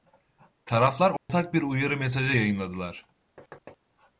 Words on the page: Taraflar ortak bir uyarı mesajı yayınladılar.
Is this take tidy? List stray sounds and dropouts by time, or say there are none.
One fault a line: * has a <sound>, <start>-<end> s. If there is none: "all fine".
* has a dropout, 1.2-1.3 s
* has a thud, 3.4-3.8 s